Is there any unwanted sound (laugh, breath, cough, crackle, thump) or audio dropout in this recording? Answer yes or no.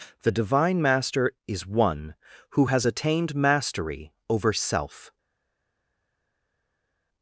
no